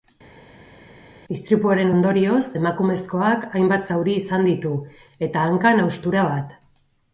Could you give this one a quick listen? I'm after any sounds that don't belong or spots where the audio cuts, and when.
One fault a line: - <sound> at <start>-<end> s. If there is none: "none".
none